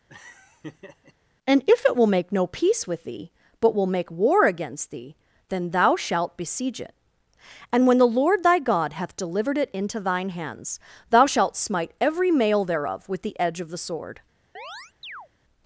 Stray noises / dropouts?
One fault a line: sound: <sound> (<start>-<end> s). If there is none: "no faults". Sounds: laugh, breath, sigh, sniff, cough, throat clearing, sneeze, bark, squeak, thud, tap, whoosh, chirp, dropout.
sound: laugh (0.1-1.1 s)
sound: chirp (14.6-15.3 s)